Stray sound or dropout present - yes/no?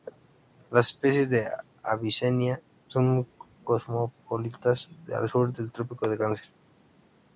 no